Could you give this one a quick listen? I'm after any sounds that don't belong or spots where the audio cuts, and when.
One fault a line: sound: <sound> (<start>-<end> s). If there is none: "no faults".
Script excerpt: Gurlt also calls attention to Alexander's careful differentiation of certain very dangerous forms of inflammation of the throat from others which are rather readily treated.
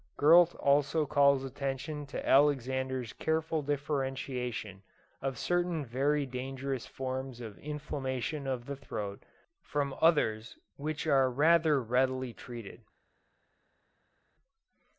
no faults